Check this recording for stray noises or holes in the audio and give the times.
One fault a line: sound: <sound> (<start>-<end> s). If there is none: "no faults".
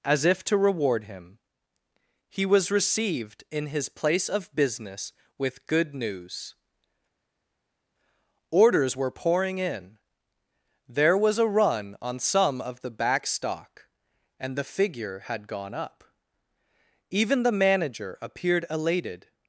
no faults